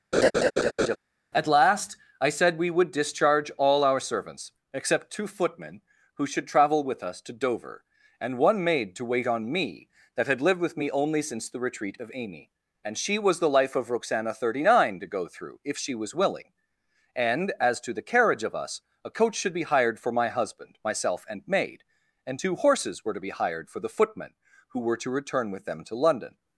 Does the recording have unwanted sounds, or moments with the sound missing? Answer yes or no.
yes